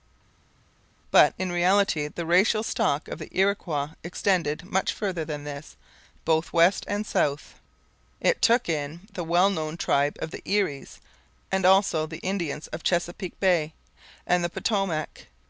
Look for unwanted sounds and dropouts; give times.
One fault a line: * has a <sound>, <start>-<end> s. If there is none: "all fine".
all fine